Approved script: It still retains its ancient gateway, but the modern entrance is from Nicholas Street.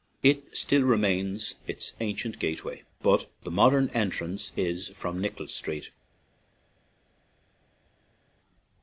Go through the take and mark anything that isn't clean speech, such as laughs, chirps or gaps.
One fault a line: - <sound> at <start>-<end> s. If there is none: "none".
none